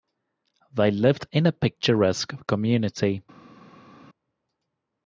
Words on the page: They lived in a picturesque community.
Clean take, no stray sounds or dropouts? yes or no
yes